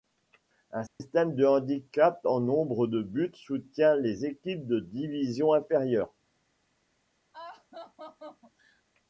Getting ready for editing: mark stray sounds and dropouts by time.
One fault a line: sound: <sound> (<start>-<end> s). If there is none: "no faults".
sound: dropout (0.9-1.0 s)
sound: laugh (7.3-8.8 s)